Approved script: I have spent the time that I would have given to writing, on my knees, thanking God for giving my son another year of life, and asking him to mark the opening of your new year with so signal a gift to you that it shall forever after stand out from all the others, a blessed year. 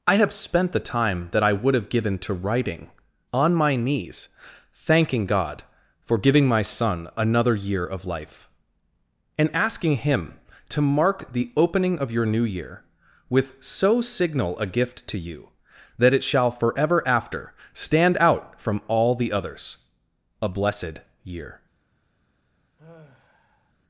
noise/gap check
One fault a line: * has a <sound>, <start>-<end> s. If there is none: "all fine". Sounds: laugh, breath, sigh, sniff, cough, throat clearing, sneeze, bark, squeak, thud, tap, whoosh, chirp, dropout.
* has a sigh, 22.8-23.7 s